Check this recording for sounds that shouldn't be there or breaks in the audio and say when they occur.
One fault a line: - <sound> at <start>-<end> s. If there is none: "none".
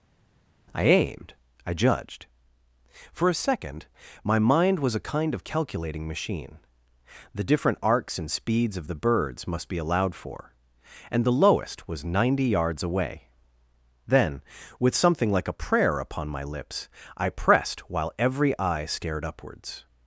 none